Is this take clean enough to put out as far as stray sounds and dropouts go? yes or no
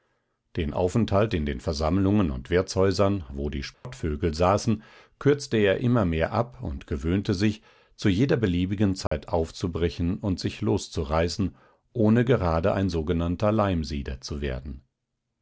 no